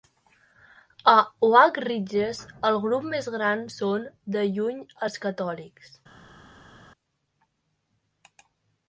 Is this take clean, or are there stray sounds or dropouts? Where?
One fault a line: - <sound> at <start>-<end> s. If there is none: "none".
none